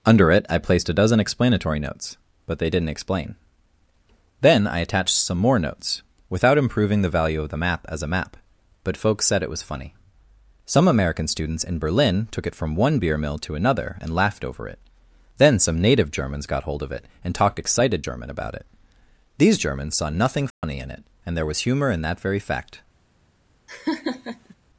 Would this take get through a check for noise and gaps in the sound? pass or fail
fail